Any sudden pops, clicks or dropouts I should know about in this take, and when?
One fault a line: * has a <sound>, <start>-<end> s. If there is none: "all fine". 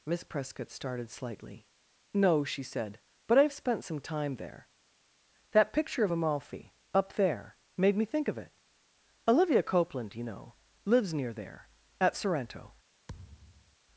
* has a thud, 13.1-13.8 s